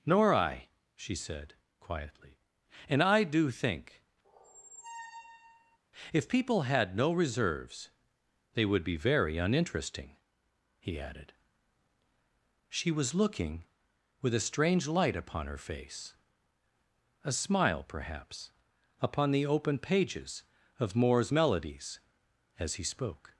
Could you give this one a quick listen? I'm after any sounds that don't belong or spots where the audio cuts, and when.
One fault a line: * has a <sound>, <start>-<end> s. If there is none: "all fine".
* has a squeak, 4.2-5.8 s